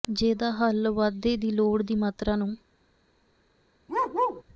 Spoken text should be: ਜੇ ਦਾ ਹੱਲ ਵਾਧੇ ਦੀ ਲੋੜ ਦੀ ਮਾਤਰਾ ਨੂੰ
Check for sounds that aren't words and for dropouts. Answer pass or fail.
fail